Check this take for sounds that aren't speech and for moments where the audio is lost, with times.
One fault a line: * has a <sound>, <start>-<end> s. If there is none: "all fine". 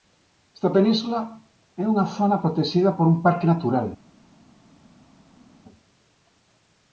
all fine